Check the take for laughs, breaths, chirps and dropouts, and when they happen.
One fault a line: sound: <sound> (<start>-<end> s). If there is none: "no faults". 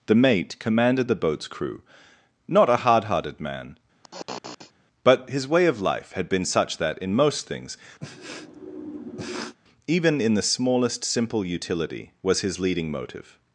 sound: sniff (4.0-4.7 s)
sound: sniff (8.0-9.6 s)